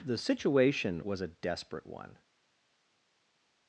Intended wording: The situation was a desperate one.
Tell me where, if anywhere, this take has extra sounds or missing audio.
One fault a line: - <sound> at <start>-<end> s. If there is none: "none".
none